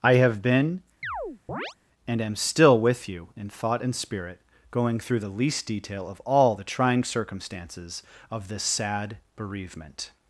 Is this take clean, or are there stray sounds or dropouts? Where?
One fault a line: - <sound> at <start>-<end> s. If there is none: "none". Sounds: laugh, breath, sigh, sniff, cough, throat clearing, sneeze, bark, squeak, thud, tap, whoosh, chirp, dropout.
- chirp at 1.0-1.8 s